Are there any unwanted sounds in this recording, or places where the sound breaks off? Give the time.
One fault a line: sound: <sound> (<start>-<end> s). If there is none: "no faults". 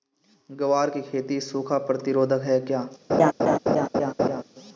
sound: laugh (3.1-4.4 s)